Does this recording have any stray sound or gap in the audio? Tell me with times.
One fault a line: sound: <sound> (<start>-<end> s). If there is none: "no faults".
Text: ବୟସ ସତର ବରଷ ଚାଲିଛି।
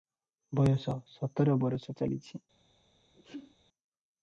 sound: sneeze (3.1-3.5 s)